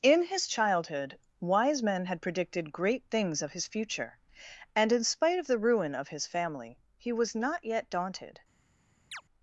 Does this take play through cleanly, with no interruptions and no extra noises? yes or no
no